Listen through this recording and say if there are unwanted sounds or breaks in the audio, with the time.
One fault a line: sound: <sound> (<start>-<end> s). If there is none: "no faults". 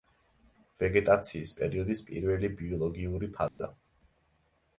sound: dropout (3.5-3.6 s)